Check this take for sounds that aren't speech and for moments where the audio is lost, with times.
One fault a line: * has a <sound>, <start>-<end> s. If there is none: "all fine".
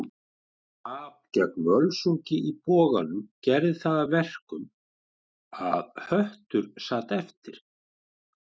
all fine